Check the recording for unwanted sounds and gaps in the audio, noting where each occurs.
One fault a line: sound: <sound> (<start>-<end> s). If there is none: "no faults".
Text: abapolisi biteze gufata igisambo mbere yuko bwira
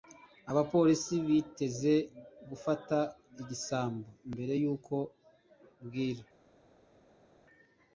no faults